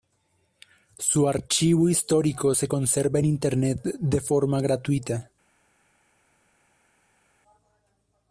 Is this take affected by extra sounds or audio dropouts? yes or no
no